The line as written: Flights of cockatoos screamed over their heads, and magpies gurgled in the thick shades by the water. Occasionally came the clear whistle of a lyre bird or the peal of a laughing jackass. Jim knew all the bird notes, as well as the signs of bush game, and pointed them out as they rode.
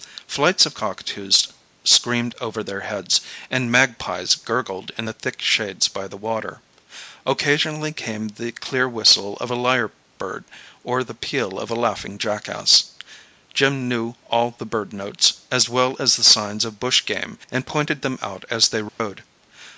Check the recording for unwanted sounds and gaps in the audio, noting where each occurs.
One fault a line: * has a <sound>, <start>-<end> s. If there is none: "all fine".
* has a dropout, 18.9-19.0 s